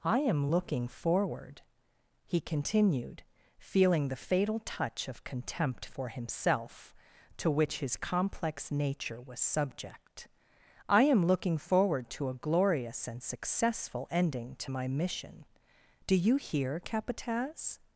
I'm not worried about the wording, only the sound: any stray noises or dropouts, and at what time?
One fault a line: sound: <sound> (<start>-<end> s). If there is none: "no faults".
no faults